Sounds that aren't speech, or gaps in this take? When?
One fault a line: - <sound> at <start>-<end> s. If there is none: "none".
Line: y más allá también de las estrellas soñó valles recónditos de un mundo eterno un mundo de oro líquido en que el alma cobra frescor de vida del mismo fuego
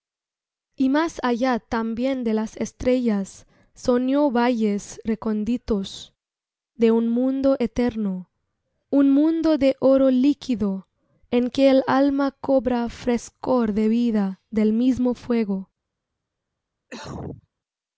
- cough at 16.9-17.5 s